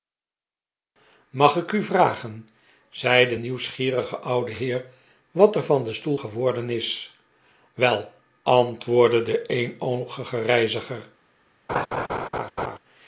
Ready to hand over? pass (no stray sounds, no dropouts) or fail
fail